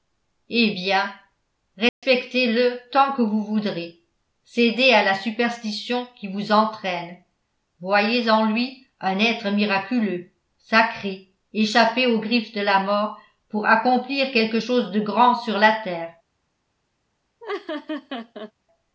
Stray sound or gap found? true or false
true